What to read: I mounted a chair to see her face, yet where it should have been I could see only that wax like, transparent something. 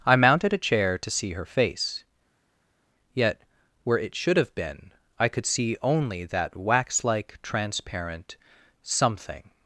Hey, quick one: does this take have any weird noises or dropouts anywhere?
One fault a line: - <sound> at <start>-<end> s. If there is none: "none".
none